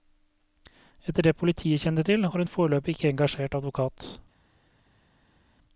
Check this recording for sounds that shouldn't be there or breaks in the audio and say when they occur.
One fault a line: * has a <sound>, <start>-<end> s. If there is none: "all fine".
all fine